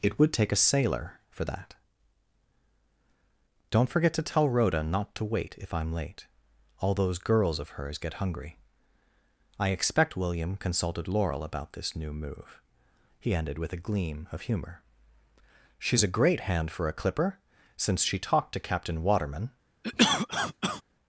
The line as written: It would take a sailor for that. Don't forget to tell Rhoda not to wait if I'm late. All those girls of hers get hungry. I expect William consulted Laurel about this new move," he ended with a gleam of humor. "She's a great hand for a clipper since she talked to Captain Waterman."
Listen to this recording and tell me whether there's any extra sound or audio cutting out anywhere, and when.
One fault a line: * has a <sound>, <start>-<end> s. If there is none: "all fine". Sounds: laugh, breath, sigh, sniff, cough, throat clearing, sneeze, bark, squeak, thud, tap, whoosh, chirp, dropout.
* has a cough, 19.8-20.8 s